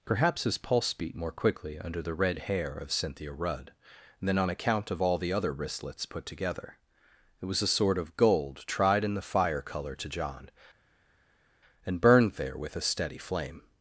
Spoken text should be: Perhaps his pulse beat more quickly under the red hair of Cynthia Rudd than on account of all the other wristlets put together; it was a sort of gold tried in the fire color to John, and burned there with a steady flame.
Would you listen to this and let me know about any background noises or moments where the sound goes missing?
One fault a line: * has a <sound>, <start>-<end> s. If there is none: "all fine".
all fine